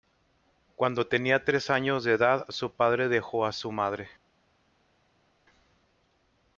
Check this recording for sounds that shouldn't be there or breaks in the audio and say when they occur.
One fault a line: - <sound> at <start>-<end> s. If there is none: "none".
none